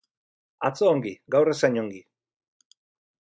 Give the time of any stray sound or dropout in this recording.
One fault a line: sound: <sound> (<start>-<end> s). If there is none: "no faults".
no faults